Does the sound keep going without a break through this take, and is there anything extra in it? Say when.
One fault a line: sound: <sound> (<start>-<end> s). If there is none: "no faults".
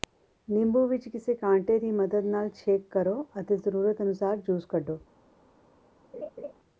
sound: laugh (6.1-6.5 s)